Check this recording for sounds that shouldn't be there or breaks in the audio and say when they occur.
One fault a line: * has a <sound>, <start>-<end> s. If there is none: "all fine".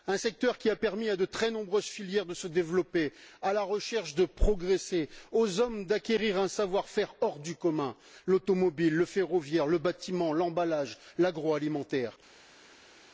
all fine